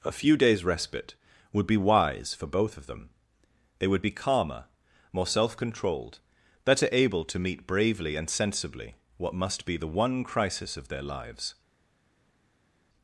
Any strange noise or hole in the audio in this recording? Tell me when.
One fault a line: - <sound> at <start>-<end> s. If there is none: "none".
none